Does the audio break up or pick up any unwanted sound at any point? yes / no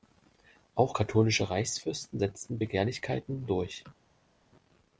no